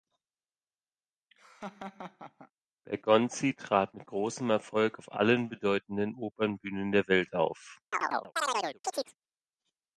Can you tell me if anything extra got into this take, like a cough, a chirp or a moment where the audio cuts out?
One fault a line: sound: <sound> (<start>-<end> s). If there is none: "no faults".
sound: laugh (1.3-2.5 s)
sound: chirp (7.9-9.1 s)